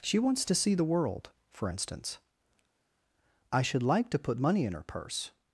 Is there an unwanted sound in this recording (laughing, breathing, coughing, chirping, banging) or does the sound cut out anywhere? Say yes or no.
no